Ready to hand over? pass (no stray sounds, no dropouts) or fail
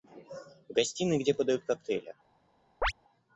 fail